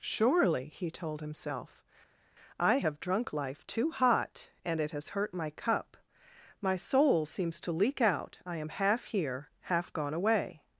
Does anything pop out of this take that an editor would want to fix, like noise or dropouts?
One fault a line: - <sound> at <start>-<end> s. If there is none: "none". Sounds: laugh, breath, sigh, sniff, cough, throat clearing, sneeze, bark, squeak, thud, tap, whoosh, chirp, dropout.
none